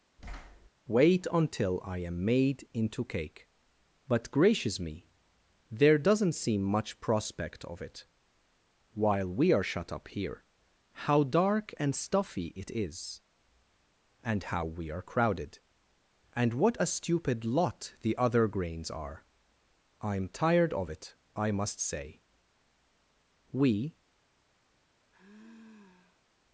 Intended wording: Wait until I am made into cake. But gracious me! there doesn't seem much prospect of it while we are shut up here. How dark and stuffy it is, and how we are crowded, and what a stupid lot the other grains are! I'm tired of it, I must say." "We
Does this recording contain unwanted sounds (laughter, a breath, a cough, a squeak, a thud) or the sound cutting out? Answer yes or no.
yes